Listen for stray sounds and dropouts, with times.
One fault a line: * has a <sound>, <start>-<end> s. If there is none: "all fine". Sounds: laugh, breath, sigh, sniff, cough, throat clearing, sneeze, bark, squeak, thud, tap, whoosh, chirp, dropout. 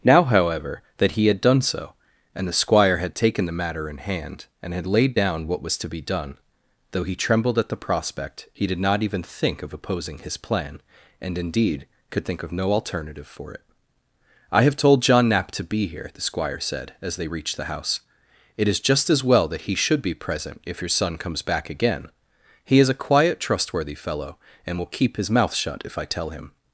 all fine